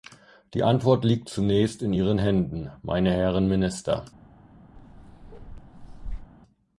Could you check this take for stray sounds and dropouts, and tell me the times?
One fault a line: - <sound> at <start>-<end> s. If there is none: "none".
- bark at 4.8-6.3 s